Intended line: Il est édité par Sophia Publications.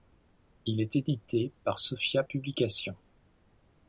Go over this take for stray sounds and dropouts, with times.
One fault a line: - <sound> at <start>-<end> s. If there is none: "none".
none